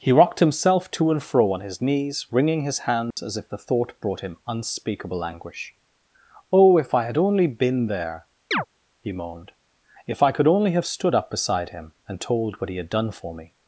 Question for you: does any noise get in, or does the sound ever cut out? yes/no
yes